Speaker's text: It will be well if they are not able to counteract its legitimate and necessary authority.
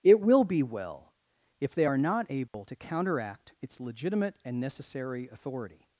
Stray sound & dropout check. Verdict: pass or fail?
fail